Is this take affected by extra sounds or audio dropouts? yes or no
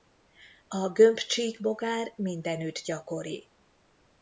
no